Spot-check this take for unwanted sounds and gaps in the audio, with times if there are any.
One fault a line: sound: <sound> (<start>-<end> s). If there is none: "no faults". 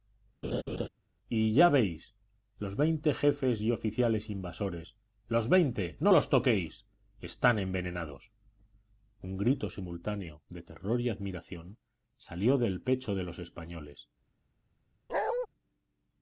sound: laugh (0.4-0.9 s)
sound: bark (15.1-15.5 s)